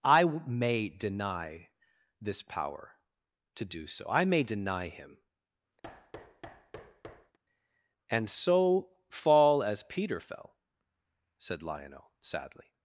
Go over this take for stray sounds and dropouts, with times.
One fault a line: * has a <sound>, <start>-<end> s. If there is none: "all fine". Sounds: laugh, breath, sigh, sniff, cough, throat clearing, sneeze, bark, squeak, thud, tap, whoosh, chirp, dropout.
* has a thud, 5.8-7.4 s